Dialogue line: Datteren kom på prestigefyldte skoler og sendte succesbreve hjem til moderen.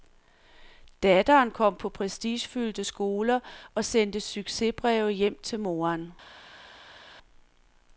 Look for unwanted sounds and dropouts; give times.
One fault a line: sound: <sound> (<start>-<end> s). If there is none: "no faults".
no faults